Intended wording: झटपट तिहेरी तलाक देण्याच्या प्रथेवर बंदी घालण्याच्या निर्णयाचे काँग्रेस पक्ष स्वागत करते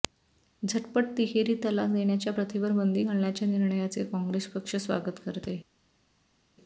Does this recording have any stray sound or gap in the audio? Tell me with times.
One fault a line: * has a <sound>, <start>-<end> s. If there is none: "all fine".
all fine